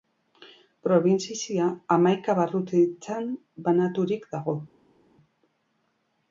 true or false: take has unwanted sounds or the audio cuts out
false